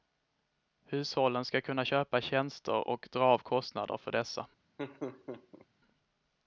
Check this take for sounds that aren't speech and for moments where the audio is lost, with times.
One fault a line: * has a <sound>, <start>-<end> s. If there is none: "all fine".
* has a laugh, 4.8-5.7 s